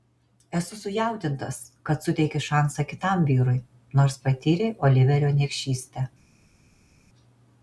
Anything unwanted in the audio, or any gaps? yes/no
no